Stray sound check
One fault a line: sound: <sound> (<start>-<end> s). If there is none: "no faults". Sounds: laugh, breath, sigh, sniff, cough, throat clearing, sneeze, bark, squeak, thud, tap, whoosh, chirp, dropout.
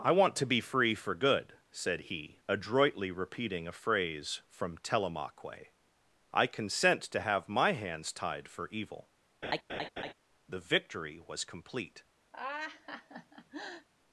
sound: laugh (9.4-10.1 s)
sound: laugh (12.3-13.9 s)